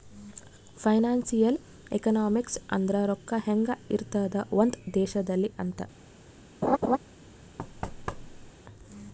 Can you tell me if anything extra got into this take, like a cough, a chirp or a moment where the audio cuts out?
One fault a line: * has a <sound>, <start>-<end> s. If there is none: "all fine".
* has a laugh, 6.6-7.0 s
* has a thud, 7.6-8.5 s